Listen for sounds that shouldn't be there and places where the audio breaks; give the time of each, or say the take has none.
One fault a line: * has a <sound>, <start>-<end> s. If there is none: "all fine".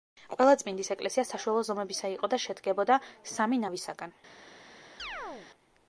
* has a chirp, 5.0-5.5 s